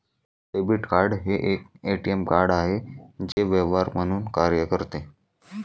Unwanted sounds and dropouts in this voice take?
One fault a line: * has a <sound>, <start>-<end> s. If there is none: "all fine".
* has a dropout, 3.3-3.4 s